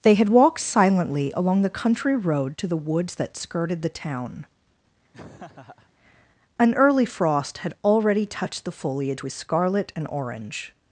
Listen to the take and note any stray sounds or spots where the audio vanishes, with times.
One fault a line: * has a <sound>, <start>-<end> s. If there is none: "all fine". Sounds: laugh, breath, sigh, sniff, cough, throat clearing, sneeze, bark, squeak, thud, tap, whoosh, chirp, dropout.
* has a laugh, 5.1-5.9 s